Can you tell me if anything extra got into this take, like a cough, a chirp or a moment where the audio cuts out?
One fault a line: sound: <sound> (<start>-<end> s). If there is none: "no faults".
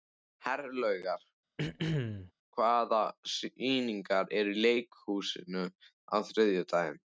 sound: throat clearing (1.6-2.3 s)